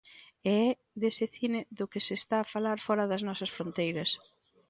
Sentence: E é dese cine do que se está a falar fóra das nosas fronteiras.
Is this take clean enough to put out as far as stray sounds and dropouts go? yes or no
yes